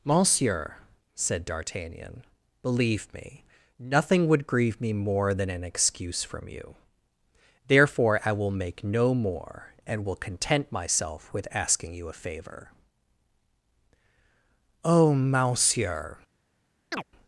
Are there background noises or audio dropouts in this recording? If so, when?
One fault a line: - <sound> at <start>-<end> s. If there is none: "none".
- chirp at 16.9-17.0 s